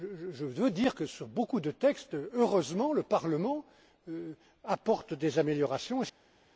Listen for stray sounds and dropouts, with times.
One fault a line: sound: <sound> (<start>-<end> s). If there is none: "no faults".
no faults